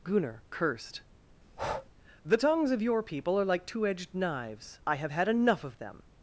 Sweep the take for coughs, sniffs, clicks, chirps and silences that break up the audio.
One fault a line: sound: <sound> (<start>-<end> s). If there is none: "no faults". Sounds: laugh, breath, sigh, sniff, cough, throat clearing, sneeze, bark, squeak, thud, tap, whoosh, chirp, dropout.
sound: breath (1.4-1.9 s)